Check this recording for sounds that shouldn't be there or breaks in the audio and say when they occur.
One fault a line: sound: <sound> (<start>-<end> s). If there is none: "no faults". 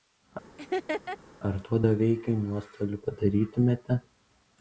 sound: laugh (0.6-1.2 s)